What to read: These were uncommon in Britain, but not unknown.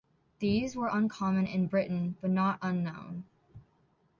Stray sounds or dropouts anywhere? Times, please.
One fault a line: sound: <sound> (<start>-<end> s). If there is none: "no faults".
no faults